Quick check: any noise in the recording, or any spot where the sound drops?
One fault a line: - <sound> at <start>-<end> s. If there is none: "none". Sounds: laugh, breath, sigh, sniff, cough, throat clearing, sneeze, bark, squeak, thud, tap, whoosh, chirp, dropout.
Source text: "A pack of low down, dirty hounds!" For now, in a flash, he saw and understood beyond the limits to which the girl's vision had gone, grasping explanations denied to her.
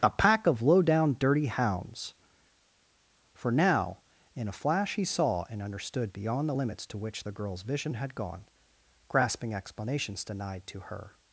none